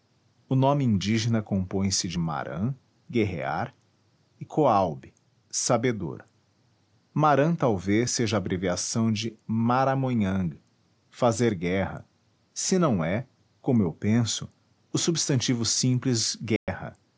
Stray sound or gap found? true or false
true